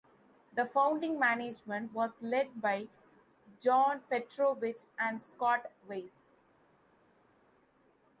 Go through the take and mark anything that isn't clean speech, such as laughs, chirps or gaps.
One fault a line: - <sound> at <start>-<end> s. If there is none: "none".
none